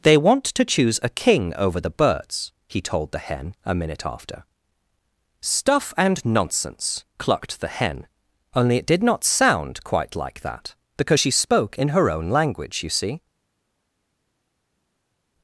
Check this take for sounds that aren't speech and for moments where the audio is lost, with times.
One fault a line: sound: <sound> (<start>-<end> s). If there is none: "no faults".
no faults